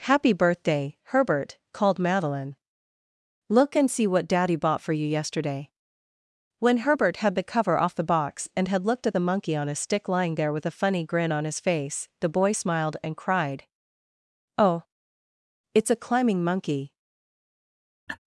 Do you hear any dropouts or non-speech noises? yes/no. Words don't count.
yes